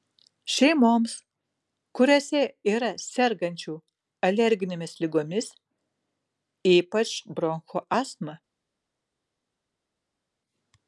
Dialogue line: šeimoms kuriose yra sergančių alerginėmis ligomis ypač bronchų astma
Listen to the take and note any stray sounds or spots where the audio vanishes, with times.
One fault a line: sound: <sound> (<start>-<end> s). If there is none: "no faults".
no faults